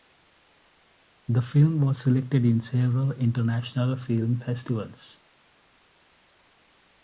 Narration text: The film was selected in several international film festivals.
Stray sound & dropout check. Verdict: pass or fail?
pass